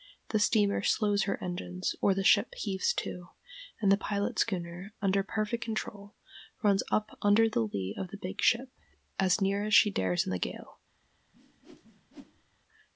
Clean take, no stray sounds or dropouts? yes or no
no